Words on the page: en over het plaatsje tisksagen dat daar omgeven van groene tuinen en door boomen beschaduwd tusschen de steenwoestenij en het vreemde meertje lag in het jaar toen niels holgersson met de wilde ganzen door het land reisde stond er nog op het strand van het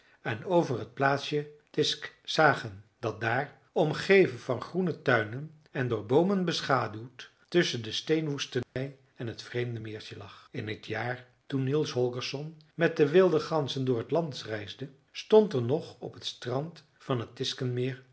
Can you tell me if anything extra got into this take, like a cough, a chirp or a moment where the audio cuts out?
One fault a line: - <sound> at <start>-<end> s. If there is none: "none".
- dropout at 8.6-8.8 s